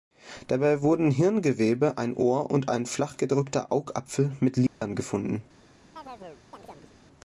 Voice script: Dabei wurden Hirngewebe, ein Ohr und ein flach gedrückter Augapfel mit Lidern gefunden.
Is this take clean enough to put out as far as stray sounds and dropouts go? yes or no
no